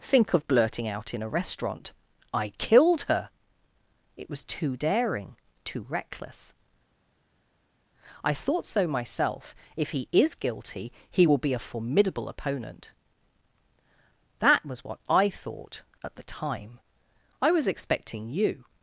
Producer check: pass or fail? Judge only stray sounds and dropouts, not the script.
pass